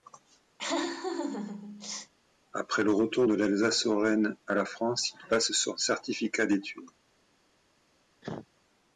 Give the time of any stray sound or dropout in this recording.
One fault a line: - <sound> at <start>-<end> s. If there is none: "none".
- laugh at 0.6-2.1 s
- cough at 8.2-8.5 s